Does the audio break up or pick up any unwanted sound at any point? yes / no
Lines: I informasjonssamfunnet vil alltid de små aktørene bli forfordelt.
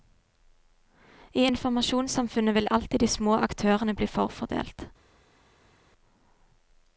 no